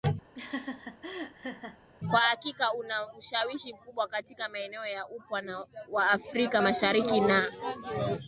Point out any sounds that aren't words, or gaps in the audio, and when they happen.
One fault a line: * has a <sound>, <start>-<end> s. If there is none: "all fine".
* has a laugh, 0.3-1.8 s